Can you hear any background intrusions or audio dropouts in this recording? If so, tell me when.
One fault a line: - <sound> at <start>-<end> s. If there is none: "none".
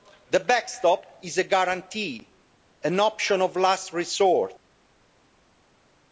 none